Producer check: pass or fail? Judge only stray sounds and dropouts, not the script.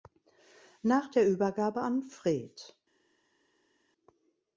pass